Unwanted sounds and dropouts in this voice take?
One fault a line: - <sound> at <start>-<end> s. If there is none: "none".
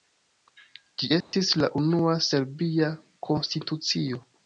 - dropout at 1.2-1.3 s